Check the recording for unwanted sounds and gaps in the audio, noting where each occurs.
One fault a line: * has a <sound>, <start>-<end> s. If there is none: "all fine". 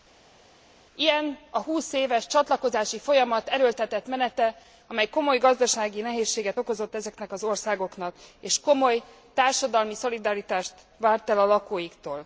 all fine